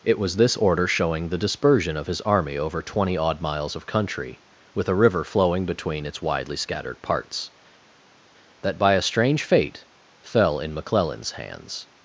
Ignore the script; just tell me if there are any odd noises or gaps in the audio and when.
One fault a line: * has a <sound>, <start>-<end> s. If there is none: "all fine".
all fine